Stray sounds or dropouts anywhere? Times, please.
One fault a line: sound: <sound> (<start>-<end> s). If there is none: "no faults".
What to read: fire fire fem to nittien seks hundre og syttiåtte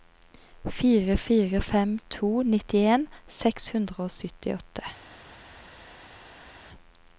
no faults